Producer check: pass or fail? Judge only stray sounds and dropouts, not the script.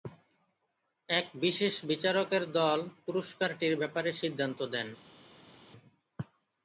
pass